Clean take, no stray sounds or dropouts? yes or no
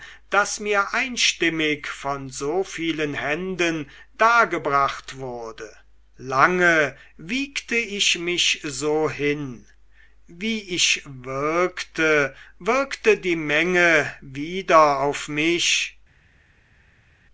yes